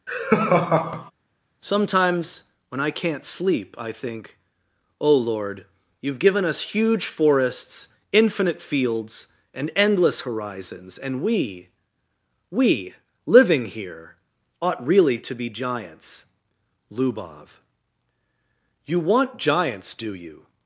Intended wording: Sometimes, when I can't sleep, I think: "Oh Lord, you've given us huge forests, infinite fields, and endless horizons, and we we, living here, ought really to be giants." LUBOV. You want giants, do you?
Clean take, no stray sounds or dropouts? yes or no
no